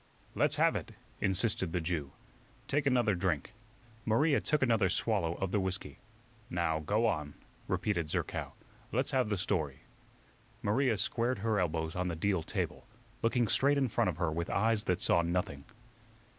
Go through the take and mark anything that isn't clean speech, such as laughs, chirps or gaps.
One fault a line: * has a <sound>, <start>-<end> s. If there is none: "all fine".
all fine